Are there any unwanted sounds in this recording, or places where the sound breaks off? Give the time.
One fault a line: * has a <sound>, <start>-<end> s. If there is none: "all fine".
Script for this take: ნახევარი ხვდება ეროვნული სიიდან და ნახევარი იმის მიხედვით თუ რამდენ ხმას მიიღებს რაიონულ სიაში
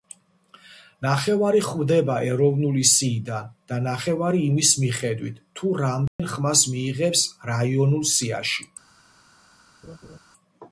* has a dropout, 6.1-6.2 s
* has a laugh, 9.8-10.2 s